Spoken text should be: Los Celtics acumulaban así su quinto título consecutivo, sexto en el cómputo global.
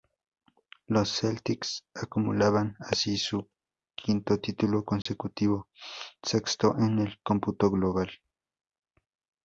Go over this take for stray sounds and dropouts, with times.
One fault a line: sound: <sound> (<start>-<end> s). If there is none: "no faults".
sound: dropout (5.0-5.1 s)